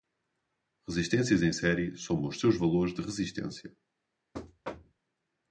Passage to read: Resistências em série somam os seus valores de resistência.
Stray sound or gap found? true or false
true